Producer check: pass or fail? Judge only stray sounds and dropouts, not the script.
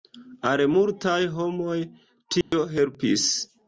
fail